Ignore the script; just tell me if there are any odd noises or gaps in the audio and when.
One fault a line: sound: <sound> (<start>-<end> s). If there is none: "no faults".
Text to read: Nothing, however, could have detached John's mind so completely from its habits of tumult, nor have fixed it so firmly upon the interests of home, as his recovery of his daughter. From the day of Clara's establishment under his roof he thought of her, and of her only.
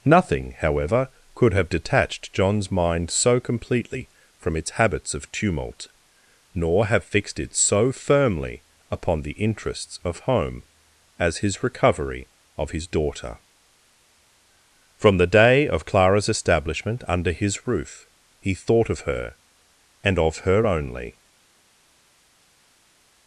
no faults